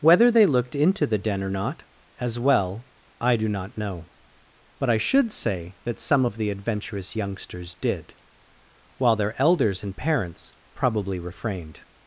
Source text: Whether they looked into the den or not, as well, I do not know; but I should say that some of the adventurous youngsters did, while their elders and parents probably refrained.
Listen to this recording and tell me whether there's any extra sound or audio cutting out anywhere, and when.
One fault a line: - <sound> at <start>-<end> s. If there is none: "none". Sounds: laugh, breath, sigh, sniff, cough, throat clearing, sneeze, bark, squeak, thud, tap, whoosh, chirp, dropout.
none